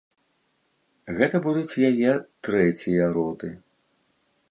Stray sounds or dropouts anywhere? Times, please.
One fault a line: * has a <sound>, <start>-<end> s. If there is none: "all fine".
all fine